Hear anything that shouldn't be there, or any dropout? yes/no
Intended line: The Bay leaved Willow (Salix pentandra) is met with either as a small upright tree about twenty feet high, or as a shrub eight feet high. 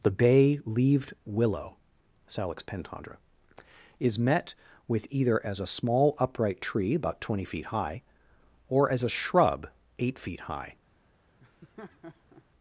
yes